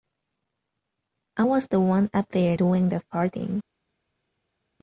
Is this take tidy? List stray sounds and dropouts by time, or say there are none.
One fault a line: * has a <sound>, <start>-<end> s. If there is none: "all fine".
all fine